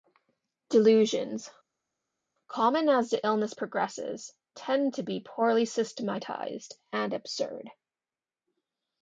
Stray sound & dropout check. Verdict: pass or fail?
pass